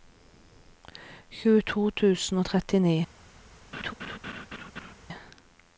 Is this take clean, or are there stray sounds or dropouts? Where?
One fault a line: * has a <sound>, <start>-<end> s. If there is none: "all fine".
* has a laugh, 3.7-4.9 s